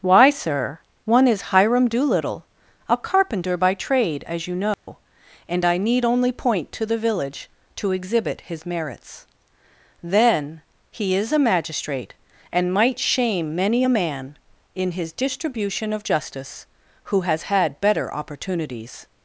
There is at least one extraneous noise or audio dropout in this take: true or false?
true